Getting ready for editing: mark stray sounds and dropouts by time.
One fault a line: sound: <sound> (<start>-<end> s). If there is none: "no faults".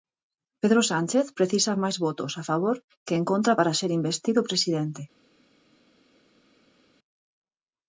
no faults